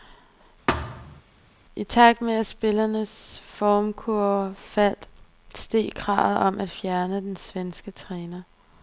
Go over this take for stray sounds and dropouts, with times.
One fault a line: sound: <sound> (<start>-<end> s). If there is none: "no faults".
sound: thud (0.7-1.2 s)